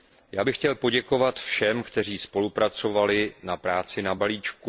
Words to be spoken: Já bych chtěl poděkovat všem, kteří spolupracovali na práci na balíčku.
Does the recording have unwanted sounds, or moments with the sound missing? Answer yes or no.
no